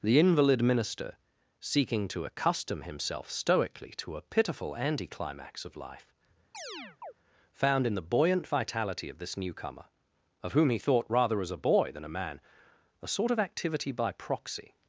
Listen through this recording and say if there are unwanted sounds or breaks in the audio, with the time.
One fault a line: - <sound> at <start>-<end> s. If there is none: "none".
- chirp at 6.5-7.1 s